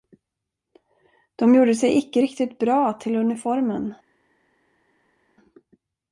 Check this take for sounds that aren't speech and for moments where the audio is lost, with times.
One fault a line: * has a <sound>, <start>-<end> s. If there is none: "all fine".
all fine